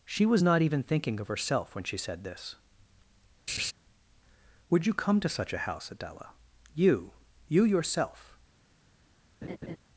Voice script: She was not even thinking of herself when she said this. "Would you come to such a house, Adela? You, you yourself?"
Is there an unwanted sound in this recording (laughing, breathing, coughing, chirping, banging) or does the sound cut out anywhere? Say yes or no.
yes